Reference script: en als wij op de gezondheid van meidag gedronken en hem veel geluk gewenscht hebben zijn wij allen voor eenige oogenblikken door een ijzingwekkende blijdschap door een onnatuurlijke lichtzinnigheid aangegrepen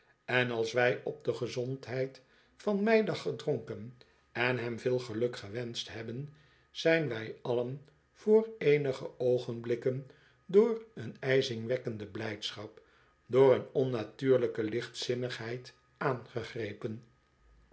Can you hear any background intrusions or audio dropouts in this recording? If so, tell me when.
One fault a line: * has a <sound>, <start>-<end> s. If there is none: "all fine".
all fine